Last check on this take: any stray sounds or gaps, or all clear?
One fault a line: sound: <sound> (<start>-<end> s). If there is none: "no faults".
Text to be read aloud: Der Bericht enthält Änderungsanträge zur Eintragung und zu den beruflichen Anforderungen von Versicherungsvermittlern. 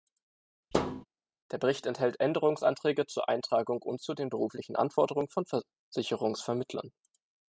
sound: thud (0.7-1.1 s)